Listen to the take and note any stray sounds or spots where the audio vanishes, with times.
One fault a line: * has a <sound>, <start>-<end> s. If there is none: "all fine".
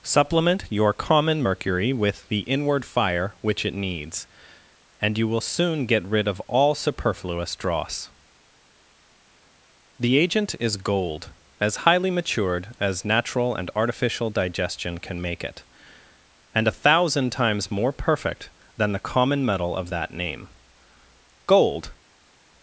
all fine